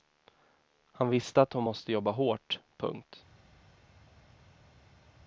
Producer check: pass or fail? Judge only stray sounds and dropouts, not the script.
pass